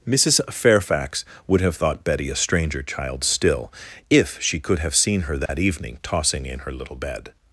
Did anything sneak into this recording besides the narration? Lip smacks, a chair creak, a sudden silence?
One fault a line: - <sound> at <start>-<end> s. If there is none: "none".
- dropout at 5.5-5.5 s